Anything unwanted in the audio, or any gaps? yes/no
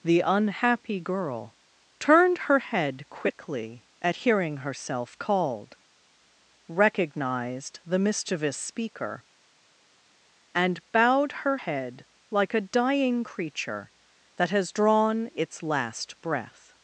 no